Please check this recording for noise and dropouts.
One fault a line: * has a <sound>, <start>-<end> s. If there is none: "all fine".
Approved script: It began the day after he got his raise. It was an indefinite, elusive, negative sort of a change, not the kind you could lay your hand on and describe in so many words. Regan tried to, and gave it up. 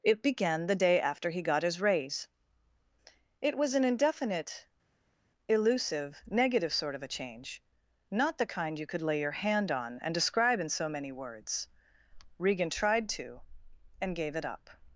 all fine